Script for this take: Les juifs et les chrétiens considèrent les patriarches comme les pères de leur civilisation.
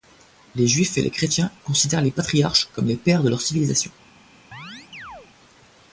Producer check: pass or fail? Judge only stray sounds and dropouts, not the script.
fail